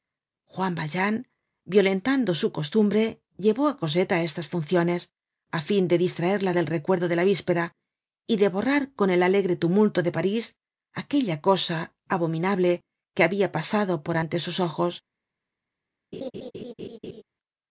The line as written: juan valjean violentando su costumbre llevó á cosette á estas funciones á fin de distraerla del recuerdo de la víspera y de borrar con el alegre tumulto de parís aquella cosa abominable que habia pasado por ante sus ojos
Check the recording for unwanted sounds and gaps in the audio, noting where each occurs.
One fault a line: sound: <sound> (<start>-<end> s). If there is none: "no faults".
sound: laugh (16.1-17.2 s)